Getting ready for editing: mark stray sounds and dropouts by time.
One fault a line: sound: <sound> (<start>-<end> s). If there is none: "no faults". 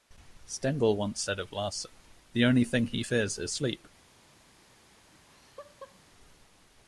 sound: laugh (5.1-6.0 s)